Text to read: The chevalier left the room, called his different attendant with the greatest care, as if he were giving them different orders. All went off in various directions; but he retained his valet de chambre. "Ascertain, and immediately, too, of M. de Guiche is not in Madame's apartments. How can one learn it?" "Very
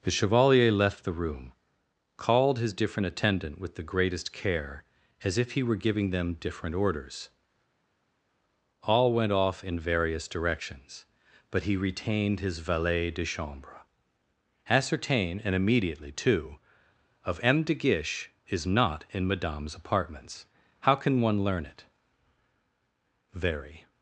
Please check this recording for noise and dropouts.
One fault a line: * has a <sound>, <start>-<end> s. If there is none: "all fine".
all fine